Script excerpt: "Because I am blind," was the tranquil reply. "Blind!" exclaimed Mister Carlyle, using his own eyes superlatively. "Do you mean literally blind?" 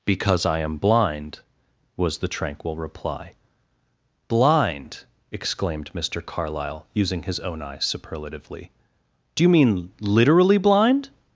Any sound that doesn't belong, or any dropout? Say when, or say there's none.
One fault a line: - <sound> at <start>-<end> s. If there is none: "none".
none